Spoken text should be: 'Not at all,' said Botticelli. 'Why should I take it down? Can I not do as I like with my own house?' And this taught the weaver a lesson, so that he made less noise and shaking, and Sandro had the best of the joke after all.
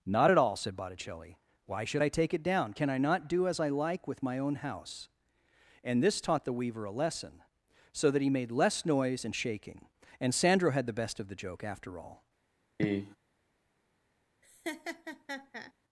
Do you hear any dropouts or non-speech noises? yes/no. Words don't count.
yes